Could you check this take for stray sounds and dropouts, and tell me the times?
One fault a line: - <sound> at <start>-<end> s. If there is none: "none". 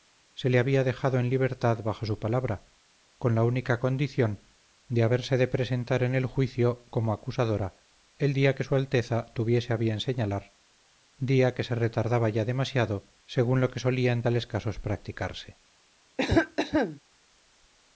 - cough at 16.2-17.0 s